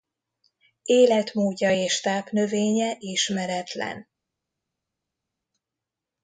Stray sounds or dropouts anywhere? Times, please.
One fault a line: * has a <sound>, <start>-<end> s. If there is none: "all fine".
all fine